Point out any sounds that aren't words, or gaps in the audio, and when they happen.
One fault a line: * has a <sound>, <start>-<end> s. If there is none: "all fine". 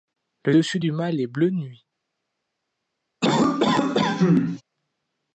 * has a cough, 3.2-4.6 s